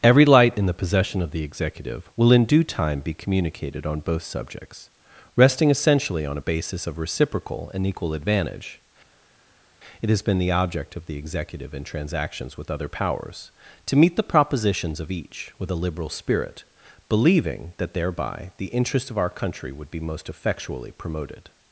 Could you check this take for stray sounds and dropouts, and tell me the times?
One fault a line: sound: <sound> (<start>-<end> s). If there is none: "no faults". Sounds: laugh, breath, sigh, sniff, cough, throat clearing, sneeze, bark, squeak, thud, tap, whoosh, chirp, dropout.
no faults